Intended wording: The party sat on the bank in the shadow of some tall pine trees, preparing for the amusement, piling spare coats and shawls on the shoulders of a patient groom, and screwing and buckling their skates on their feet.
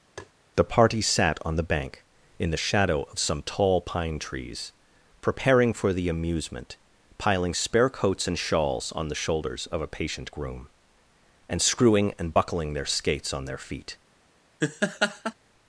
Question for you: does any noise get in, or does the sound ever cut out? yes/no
yes